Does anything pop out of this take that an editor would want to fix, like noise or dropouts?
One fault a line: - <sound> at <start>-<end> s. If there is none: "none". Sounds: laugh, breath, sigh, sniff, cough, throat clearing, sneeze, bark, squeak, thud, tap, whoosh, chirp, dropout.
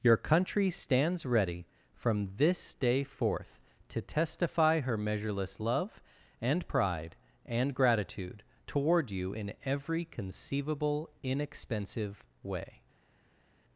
none